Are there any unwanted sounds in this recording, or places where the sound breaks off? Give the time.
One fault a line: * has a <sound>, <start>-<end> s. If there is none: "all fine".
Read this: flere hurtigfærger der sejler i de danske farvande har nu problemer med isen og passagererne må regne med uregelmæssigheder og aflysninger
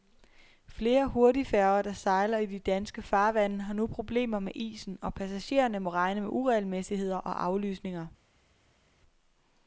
all fine